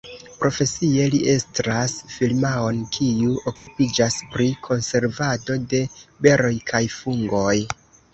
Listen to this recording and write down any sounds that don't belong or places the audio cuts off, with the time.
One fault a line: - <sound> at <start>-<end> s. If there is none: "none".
- dropout at 3.6-3.7 s